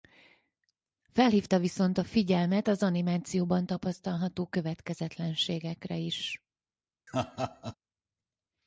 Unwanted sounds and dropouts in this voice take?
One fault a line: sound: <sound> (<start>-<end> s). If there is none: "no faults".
sound: laugh (7.1-7.8 s)